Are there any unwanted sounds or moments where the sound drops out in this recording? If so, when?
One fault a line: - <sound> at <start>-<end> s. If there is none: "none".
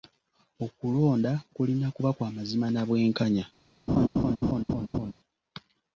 - laugh at 3.9-5.1 s